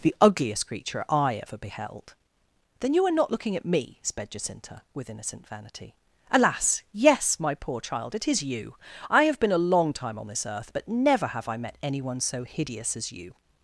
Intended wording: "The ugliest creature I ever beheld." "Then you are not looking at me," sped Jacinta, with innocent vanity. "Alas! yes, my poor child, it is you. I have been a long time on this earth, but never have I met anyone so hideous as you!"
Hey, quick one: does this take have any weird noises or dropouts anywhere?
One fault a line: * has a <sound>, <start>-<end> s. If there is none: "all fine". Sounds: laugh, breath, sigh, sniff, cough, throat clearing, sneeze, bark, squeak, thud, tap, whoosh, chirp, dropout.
all fine